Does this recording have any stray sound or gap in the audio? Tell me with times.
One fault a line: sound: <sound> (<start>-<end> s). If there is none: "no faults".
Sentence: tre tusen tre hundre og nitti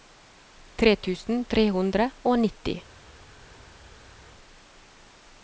no faults